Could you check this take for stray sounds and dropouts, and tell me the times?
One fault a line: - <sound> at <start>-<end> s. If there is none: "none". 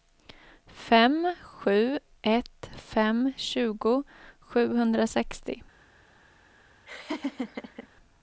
- laugh at 6.9-7.9 s